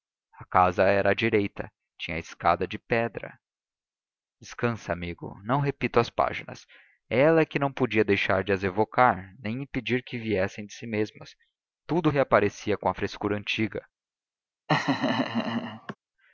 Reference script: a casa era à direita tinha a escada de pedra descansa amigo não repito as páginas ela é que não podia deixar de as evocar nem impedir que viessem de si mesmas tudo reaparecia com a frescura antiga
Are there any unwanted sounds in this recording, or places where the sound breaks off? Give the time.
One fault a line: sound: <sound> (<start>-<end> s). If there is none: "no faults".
sound: laugh (14.7-16.0 s)